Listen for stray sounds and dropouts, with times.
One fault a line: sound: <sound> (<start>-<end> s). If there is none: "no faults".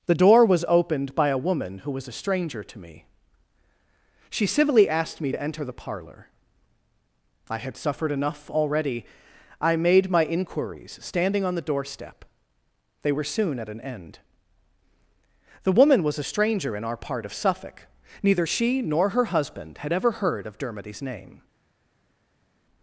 no faults